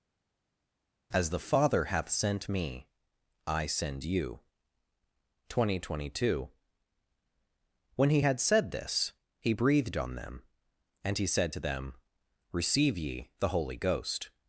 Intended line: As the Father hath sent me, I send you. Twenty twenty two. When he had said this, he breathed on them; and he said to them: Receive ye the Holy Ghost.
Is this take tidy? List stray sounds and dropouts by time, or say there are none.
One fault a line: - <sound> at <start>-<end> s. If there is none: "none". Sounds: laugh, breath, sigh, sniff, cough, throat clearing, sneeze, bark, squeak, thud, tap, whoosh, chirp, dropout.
none